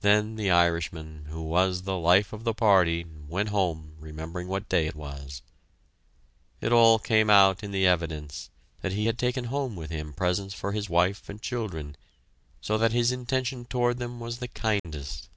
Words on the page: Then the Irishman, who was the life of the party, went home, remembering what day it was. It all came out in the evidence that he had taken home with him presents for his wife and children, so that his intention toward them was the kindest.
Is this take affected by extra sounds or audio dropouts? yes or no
yes